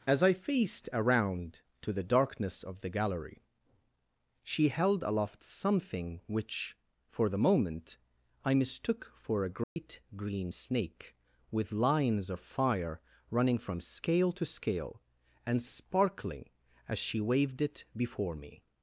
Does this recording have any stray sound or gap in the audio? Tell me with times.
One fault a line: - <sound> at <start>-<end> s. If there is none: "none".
- dropout at 9.6-9.8 s